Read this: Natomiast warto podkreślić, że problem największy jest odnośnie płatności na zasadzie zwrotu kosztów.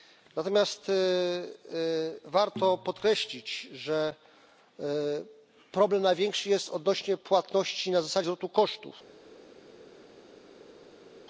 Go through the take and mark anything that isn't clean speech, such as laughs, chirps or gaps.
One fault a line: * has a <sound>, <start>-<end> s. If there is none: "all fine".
all fine